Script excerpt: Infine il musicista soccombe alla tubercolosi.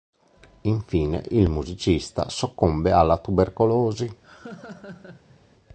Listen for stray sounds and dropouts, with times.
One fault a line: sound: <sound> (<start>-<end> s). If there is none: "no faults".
sound: laugh (4.2-5.4 s)